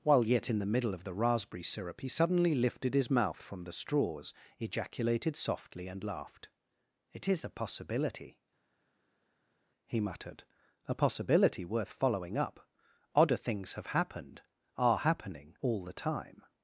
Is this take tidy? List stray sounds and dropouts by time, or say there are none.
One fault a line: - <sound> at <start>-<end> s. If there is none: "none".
none